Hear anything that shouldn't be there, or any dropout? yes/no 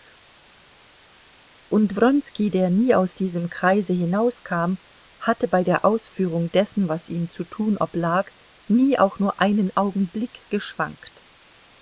no